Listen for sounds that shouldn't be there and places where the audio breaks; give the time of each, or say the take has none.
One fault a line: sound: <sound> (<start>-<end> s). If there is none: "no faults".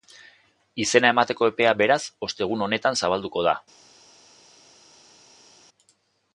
no faults